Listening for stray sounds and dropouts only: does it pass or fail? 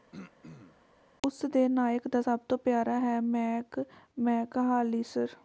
fail